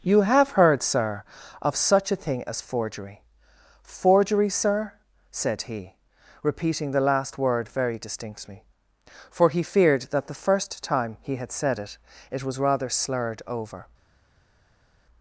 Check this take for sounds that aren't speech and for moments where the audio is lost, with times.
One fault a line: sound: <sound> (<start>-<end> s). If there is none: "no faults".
no faults